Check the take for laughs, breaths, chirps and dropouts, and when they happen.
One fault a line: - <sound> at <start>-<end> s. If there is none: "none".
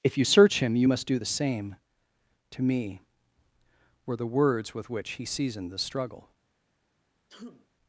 - sneeze at 7.3-7.7 s